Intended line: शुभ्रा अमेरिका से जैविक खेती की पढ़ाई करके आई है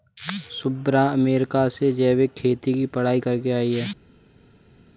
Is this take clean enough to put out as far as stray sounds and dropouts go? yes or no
yes